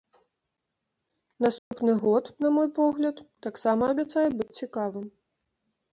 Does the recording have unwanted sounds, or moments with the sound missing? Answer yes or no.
yes